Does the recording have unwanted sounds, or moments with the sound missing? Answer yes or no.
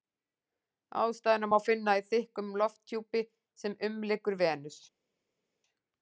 no